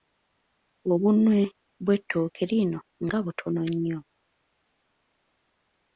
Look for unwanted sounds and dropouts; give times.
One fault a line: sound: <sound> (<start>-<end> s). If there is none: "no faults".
no faults